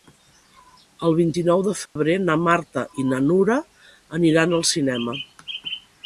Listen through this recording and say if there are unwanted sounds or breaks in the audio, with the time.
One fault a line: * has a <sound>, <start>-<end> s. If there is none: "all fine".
* has a dropout, 1.9-2.0 s